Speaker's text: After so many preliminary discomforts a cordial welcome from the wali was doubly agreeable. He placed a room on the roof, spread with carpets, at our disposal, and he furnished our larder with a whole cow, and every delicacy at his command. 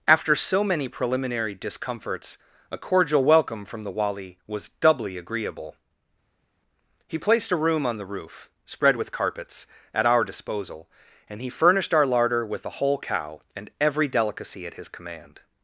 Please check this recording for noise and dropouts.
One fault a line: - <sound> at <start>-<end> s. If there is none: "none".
none